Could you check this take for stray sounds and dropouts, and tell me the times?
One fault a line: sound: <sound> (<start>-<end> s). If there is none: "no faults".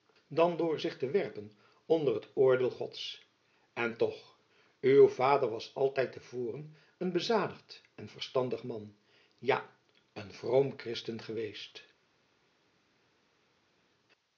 no faults